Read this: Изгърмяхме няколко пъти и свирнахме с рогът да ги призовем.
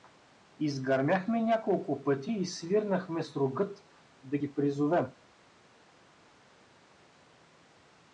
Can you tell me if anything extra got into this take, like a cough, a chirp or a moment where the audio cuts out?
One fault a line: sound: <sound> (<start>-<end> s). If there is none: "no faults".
no faults